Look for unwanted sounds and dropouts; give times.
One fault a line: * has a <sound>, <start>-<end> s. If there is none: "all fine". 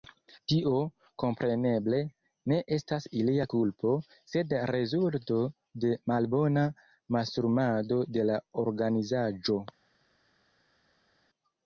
all fine